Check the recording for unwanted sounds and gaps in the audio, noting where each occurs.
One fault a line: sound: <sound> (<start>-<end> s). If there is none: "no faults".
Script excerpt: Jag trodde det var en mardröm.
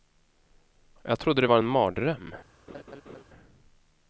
sound: laugh (2.7-3.2 s)